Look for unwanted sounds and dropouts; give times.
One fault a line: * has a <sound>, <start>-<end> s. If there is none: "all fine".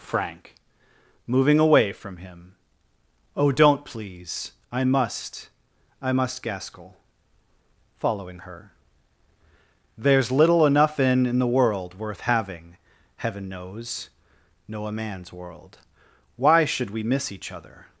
all fine